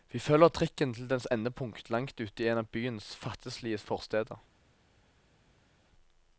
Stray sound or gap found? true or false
false